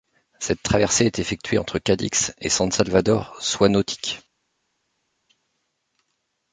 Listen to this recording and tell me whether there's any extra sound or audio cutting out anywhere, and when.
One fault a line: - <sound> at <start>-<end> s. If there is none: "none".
none